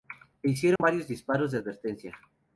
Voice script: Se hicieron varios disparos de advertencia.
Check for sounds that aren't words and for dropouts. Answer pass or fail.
fail